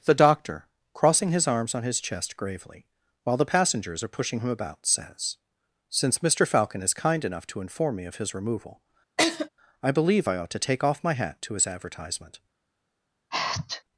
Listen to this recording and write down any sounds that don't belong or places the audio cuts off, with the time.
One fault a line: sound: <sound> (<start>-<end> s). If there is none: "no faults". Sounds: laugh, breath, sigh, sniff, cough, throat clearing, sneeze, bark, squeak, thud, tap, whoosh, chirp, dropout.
sound: laugh (9.2-9.5 s)
sound: sneeze (13.3-13.8 s)